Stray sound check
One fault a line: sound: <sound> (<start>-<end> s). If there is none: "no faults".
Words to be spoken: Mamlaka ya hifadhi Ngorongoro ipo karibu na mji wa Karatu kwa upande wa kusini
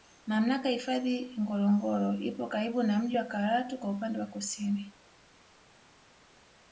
no faults